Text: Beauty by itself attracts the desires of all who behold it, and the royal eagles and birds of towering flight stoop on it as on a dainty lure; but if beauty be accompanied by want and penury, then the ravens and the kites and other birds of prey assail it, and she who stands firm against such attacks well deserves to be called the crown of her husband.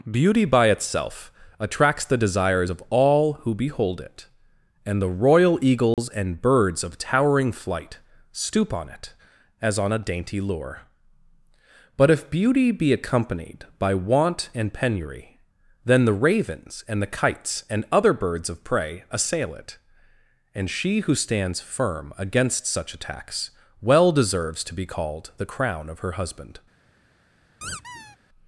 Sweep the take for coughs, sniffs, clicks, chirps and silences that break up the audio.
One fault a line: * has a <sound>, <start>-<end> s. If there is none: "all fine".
* has a dropout, 5.9-6.0 s
* has a squeak, 27.6-28.2 s